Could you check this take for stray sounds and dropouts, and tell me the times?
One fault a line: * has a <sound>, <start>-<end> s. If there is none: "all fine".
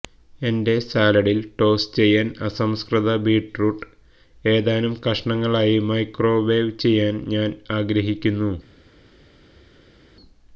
all fine